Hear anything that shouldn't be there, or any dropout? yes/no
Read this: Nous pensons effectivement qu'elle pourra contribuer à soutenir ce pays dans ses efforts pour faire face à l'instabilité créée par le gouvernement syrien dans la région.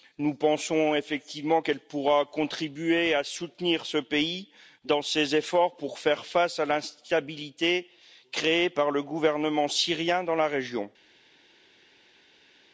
no